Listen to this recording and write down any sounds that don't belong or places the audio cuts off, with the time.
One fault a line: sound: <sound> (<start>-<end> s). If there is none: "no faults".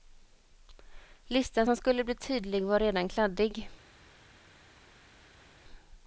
no faults